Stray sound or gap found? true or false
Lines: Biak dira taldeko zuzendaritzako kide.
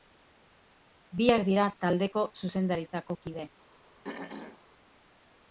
true